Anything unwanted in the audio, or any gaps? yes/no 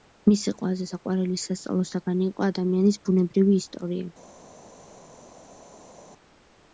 no